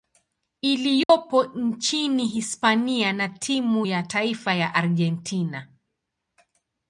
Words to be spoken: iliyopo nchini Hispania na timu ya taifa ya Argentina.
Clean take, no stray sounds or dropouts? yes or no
no